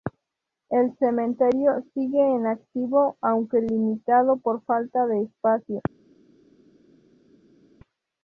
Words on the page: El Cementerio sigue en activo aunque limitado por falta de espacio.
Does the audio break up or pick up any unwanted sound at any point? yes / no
no